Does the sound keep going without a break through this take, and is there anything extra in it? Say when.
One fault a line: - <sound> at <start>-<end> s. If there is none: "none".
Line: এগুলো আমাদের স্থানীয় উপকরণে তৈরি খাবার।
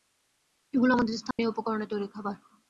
- dropout at 1.3-1.4 s